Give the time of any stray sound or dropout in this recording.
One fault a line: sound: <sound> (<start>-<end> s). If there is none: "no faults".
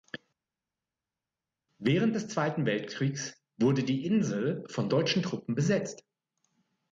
no faults